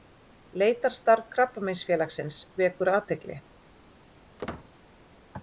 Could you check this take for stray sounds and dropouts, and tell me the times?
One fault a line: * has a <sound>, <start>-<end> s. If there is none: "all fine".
* has a squeak, 4.4-4.7 s